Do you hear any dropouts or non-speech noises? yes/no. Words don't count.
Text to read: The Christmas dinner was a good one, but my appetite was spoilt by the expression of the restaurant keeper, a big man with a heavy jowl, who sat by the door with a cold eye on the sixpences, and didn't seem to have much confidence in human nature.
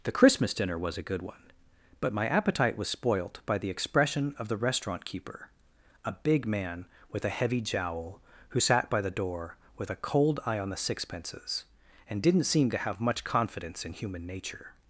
no